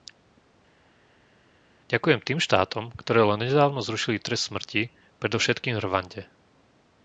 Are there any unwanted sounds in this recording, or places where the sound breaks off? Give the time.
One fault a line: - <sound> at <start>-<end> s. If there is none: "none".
none